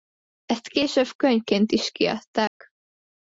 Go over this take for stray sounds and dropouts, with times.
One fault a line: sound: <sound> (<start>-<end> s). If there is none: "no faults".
sound: dropout (2.5-2.6 s)